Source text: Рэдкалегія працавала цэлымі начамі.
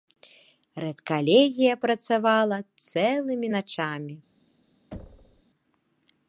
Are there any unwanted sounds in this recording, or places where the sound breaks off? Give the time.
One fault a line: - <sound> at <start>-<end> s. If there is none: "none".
- thud at 4.9-5.4 s